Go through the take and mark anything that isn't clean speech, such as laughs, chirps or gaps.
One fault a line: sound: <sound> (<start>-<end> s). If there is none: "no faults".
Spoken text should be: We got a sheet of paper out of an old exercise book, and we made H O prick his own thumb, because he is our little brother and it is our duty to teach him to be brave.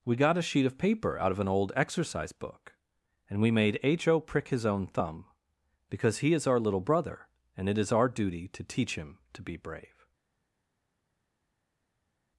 no faults